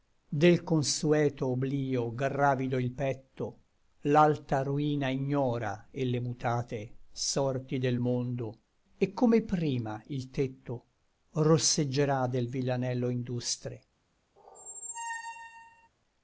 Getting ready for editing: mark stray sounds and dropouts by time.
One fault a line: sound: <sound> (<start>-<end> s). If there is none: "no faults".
sound: squeak (14.4-15.9 s)